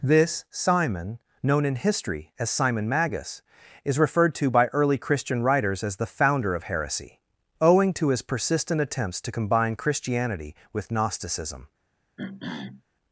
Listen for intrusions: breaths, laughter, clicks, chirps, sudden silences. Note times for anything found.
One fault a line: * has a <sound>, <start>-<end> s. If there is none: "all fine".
* has a throat clearing, 12.2-12.8 s